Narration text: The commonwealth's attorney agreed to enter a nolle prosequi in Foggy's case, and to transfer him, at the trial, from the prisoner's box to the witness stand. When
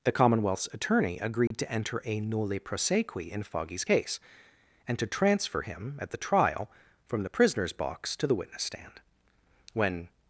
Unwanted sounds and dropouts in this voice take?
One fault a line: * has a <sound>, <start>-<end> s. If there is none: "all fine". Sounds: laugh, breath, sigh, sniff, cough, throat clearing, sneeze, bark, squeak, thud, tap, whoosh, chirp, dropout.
* has a dropout, 1.5-1.5 s